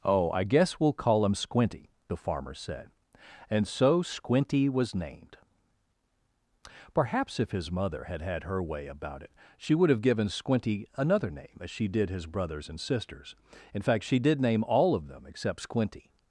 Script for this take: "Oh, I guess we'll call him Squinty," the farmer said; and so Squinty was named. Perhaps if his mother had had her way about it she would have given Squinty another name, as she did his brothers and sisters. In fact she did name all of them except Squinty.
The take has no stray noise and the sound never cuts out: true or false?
true